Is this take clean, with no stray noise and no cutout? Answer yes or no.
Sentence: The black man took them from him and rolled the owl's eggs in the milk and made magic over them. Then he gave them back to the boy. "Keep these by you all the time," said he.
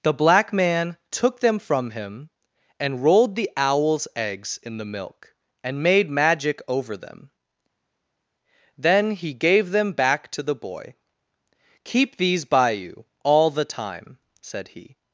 yes